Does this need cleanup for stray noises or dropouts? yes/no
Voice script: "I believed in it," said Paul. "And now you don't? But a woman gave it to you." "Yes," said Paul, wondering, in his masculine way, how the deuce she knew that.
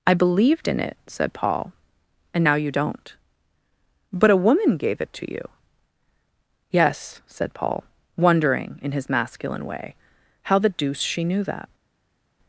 no